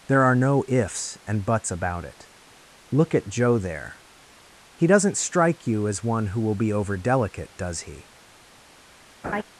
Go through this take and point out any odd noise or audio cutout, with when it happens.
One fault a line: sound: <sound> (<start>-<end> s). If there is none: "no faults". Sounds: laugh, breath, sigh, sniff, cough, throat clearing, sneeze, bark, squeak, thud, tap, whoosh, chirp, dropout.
sound: laugh (9.2-9.4 s)